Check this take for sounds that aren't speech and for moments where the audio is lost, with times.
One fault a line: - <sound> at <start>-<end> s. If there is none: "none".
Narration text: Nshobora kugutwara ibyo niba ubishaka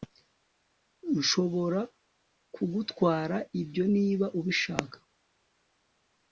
none